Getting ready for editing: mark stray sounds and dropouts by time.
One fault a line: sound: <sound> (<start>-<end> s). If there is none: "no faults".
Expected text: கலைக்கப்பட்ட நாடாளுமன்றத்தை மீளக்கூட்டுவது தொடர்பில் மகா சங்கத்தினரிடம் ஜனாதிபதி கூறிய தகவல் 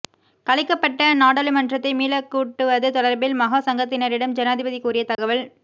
sound: dropout (5.1-5.2 s)